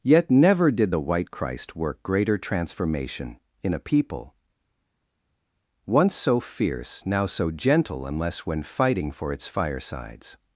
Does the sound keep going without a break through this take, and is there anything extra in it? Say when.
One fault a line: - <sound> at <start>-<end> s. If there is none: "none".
none